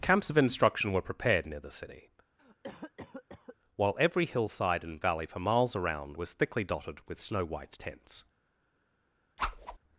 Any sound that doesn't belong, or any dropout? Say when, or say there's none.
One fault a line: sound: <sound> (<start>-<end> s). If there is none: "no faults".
sound: cough (2.4-3.6 s)
sound: whoosh (9.4-9.8 s)